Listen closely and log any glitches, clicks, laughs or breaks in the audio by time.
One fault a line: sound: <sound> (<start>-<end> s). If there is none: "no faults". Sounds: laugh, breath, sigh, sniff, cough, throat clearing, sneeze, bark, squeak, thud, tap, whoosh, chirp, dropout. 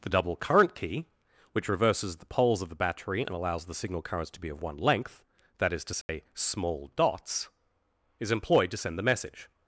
sound: dropout (6.0-6.1 s)